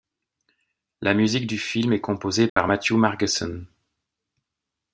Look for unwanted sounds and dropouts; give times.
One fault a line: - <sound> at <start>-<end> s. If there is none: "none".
- dropout at 2.5-2.6 s